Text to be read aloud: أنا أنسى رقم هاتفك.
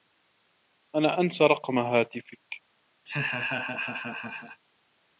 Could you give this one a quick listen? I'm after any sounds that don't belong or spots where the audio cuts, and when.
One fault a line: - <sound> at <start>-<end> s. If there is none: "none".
- laugh at 3.1-4.6 s